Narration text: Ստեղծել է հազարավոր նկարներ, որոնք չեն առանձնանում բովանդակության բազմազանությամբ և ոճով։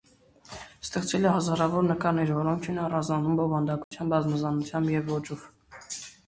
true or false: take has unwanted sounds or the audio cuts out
true